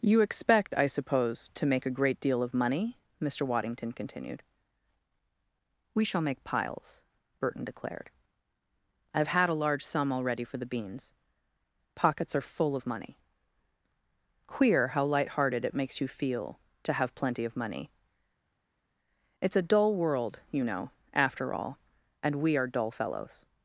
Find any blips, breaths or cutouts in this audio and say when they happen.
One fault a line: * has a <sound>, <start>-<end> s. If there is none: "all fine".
all fine